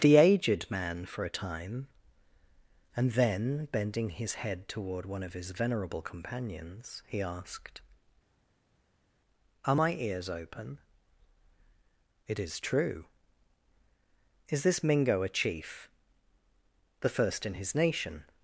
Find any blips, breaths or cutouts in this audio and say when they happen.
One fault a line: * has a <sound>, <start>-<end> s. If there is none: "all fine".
all fine